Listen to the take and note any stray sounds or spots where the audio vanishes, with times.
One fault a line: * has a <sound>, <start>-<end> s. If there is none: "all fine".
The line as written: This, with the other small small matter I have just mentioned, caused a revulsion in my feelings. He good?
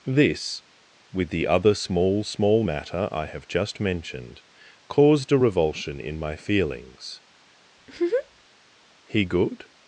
* has a laugh, 7.8-8.5 s